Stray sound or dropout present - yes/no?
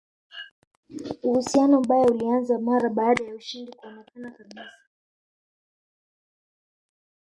no